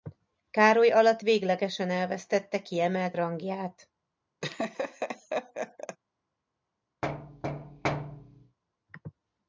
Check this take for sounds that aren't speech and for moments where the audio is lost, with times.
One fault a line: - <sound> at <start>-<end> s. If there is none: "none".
- laugh at 4.4-6.0 s
- thud at 7.0-8.6 s